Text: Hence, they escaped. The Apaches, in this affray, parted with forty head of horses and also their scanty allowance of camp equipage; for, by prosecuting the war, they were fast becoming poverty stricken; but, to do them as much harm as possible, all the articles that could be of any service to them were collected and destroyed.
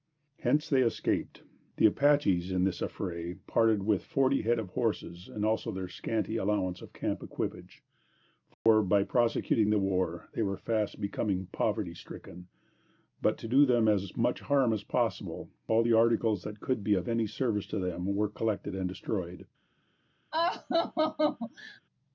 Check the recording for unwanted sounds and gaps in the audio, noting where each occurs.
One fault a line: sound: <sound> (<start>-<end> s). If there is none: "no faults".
sound: dropout (8.5-8.7 s)
sound: laugh (20.3-21.8 s)